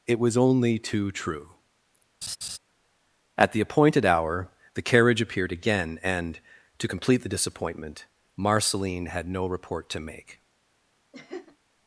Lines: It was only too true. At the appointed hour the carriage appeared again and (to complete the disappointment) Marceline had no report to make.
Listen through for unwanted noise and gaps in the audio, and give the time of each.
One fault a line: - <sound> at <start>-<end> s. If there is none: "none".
- laugh at 2.2-2.6 s
- laugh at 11.1-11.6 s